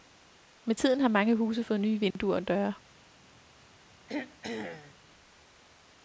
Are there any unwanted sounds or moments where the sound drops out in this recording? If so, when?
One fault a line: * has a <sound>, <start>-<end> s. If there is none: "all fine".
* has a dropout, 2.1-2.2 s
* has a throat clearing, 4.1-4.9 s